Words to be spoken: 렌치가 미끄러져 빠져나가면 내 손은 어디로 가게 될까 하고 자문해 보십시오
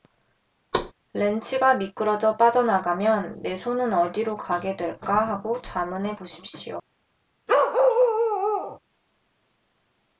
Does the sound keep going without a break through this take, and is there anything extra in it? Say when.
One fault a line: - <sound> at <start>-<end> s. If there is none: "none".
- thud at 0.7-0.9 s
- bark at 7.5-8.8 s